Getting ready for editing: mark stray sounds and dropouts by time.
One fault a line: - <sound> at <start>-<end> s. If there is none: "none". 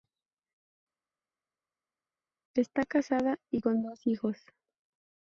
none